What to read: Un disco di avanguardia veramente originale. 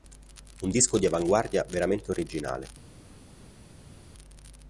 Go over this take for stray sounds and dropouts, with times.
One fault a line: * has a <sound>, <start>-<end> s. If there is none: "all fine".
all fine